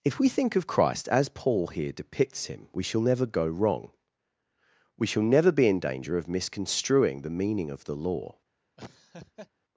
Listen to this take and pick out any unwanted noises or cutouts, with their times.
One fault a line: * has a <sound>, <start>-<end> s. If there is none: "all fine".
* has a laugh, 8.8-9.5 s